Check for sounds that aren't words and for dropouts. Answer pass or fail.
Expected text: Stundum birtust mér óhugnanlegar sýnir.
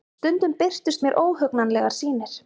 pass